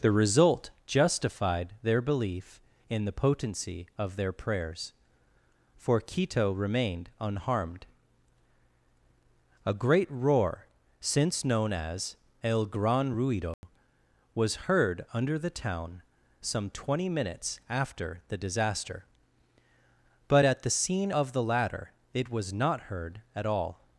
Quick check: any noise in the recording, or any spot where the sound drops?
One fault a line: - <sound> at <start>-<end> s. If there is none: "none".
- dropout at 13.5-13.6 s